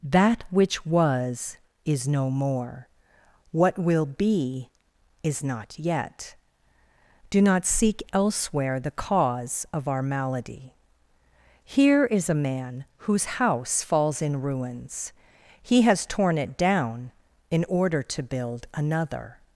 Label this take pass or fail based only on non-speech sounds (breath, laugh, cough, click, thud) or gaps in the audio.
pass